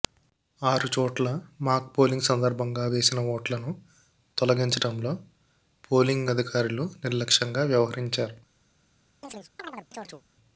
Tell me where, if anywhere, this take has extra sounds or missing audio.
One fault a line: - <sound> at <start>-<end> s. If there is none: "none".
- chirp at 9.2-10.2 s